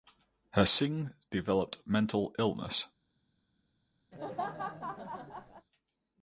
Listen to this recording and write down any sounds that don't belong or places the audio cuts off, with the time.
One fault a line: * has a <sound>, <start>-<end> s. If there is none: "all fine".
* has a laugh, 4.1-5.7 s